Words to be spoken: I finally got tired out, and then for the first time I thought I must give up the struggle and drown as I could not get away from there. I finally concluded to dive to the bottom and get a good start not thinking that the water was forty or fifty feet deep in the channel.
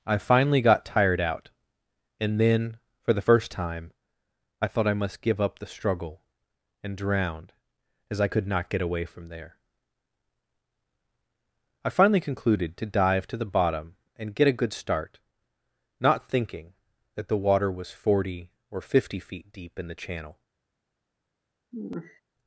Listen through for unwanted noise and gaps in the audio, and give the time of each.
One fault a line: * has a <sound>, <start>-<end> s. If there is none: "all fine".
* has a sigh, 21.7-22.2 s